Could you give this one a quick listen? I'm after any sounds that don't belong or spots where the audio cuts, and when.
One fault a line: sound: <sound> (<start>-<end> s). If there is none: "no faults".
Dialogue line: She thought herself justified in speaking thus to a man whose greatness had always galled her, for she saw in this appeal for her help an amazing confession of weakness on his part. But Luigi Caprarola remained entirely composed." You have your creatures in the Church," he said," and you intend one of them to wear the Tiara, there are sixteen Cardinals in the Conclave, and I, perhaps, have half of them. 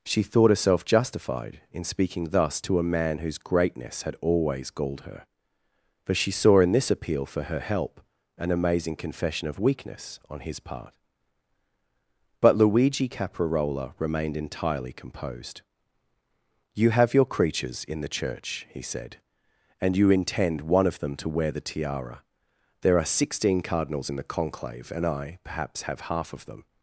no faults